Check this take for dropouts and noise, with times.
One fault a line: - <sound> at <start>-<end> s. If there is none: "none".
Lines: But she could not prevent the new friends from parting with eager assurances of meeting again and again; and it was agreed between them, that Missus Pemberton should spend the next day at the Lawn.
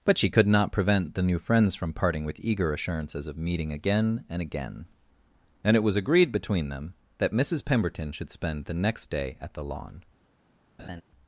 - laugh at 10.8-11.0 s